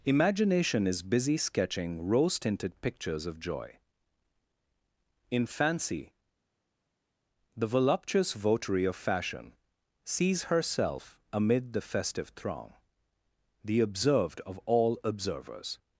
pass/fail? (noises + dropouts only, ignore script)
pass